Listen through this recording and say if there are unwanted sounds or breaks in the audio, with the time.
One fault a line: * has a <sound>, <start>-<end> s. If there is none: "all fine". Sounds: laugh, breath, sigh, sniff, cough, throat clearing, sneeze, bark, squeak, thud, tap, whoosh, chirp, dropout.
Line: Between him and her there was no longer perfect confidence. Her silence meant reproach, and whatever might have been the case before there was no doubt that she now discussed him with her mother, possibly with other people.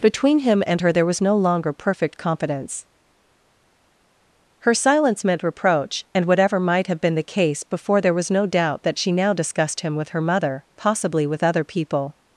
all fine